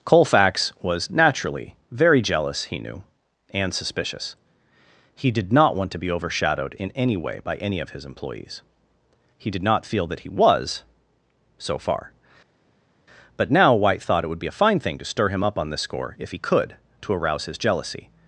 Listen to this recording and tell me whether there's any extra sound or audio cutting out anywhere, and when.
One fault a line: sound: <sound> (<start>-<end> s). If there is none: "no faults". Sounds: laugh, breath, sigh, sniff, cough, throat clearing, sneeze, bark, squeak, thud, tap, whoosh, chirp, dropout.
no faults